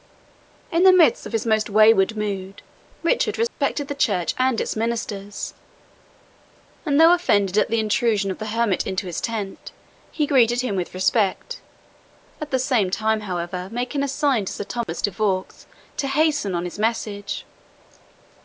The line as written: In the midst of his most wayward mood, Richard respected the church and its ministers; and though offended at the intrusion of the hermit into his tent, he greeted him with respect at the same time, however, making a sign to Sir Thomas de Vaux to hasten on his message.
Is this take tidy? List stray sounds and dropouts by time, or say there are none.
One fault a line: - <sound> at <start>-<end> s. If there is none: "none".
- dropout at 3.5-3.6 s
- dropout at 14.8-14.9 s